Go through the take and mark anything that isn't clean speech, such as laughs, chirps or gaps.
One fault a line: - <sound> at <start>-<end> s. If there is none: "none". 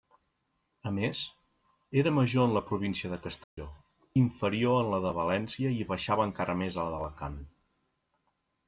- dropout at 3.4-3.6 s